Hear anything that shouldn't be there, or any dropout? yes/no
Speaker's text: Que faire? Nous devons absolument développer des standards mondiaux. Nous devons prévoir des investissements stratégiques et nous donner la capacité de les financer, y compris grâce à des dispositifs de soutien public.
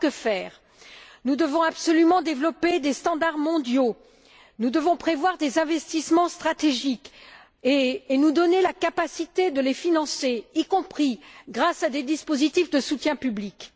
no